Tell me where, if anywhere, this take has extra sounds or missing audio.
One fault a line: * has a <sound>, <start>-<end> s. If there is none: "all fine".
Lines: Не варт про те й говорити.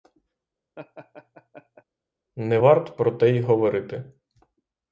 * has a laugh, 0.8-1.8 s